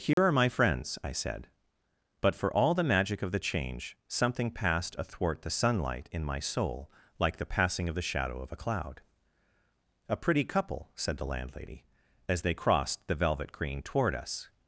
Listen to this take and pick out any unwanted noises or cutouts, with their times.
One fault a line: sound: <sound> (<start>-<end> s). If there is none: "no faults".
sound: dropout (0.1-0.2 s)